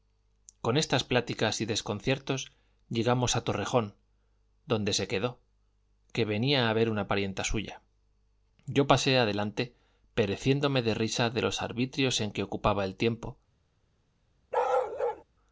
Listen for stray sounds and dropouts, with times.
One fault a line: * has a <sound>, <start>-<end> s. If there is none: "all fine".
* has a bark, 14.5-15.2 s